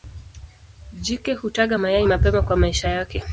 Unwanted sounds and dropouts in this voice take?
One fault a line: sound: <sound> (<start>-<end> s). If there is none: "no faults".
no faults